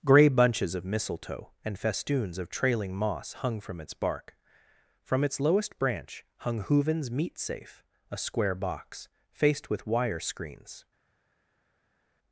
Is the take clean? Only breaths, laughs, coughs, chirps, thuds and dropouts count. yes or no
yes